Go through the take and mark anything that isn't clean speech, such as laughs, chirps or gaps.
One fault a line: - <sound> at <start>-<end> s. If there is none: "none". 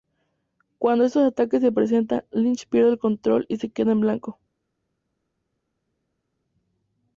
none